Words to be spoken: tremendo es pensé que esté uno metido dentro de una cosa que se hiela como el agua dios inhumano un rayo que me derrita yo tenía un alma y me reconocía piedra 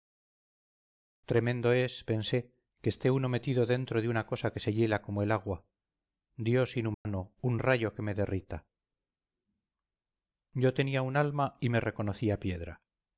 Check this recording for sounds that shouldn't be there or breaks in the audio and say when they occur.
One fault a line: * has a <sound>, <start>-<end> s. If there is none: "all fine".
* has a dropout, 6.9-7.1 s